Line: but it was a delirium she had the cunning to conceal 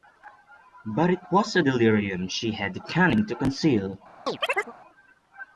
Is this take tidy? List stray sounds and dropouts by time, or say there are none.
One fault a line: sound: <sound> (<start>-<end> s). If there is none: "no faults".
sound: chirp (4.3-4.7 s)